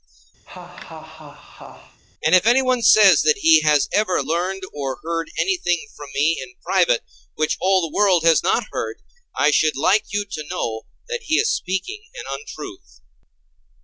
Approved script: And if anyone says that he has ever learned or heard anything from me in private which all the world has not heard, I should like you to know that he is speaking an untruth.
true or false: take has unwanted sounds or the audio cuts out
true